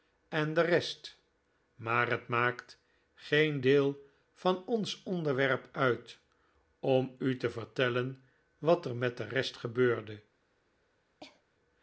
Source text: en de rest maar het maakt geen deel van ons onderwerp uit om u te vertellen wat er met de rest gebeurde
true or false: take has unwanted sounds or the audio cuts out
true